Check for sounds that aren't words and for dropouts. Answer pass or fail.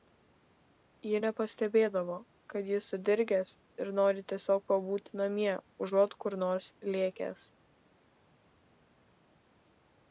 pass